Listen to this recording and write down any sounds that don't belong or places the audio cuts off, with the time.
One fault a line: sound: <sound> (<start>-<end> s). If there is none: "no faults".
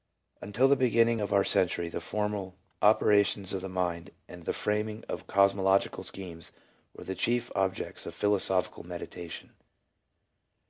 no faults